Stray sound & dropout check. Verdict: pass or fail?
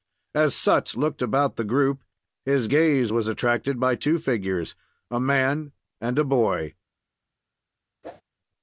fail